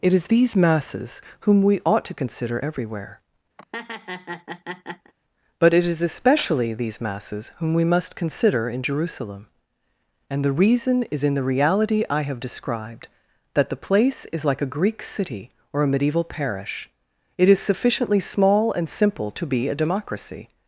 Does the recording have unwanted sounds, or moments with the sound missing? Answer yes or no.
yes